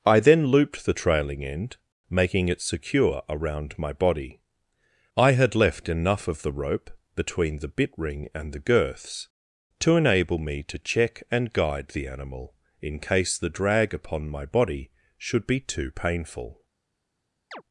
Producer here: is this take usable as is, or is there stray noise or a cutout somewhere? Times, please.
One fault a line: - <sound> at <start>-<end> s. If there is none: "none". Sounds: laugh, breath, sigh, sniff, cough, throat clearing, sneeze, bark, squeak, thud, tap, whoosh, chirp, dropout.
- chirp at 17.5-17.6 s